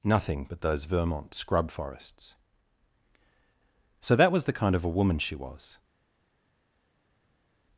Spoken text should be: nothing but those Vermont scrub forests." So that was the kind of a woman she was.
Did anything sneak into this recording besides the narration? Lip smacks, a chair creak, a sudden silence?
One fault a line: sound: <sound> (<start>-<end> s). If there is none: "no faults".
no faults